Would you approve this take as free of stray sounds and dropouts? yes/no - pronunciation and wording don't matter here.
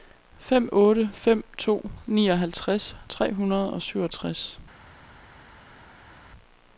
yes